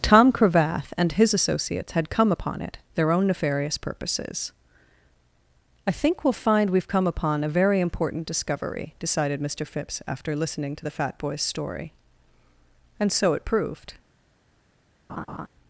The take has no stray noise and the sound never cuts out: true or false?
false